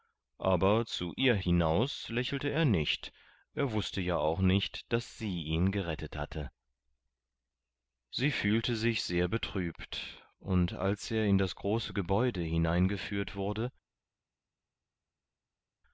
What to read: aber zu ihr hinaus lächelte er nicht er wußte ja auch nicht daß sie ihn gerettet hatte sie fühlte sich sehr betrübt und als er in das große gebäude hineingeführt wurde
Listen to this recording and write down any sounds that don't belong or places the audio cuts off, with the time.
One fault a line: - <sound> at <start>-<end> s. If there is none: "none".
none